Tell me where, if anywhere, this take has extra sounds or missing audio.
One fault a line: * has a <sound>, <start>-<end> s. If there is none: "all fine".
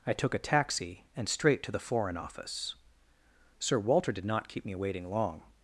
all fine